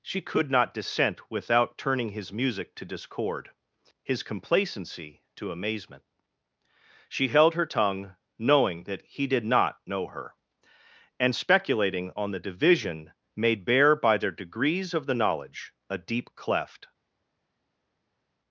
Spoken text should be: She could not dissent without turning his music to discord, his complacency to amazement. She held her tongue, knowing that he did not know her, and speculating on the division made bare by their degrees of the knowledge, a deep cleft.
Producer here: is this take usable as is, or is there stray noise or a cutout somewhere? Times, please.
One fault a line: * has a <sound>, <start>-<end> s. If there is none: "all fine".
all fine